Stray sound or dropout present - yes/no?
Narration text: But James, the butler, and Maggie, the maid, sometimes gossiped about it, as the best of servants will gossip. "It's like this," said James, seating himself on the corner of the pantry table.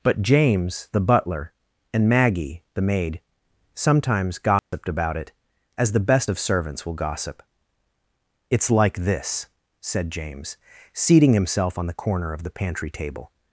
yes